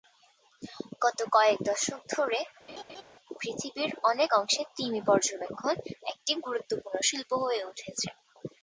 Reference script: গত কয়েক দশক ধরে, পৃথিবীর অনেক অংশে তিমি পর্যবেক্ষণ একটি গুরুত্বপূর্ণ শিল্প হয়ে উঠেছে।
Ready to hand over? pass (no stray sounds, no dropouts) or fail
fail